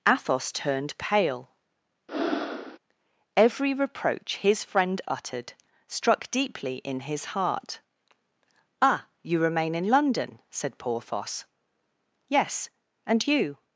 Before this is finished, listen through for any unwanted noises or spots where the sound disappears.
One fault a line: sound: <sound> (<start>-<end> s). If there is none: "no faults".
sound: breath (2.1-2.8 s)